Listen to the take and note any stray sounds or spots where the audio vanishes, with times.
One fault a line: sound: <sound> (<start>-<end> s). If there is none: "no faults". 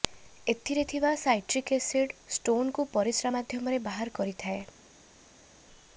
no faults